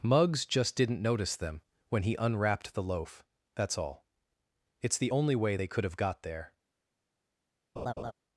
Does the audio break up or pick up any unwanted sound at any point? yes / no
yes